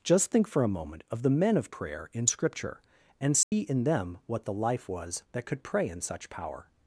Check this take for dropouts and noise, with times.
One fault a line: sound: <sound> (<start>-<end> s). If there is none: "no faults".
sound: dropout (3.4-3.5 s)